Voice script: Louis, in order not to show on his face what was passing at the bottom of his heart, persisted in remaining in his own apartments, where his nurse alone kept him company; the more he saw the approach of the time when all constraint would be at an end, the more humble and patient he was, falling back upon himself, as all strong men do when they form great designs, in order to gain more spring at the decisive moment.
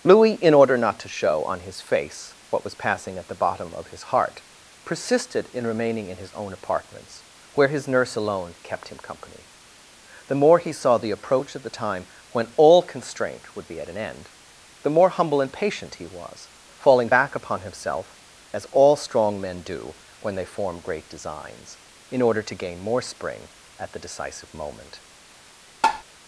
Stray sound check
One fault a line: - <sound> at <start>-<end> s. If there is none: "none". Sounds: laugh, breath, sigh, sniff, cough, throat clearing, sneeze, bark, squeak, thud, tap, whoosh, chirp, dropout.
- tap at 25.8-26.0 s